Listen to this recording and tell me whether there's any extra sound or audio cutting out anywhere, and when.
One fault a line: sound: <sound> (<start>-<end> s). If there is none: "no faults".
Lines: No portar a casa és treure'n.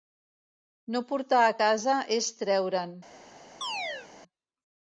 sound: chirp (3.6-4.1 s)